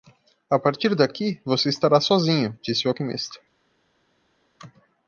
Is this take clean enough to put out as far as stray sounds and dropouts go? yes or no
yes